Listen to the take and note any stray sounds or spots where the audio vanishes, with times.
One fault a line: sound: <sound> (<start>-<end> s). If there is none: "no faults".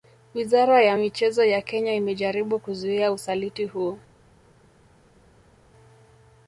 no faults